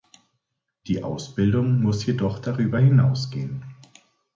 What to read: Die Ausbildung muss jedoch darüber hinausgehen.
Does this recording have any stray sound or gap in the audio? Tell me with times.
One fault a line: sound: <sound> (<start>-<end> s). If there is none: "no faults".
no faults